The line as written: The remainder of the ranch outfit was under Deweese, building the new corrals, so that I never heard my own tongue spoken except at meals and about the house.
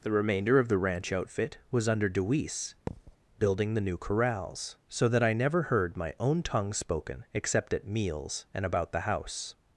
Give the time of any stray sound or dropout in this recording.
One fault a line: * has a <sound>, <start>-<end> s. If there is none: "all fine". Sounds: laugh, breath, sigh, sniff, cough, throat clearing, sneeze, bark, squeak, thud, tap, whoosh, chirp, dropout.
* has a thud, 2.9-3.2 s